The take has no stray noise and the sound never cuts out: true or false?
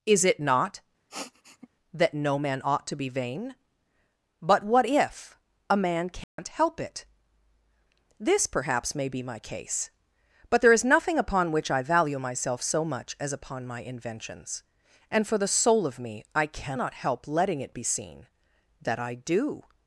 false